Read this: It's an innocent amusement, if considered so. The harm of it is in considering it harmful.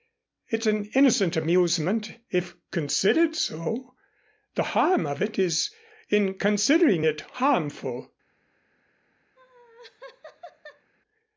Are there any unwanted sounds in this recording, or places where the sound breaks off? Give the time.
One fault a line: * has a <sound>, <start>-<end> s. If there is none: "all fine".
* has a laugh, 9.4-10.9 s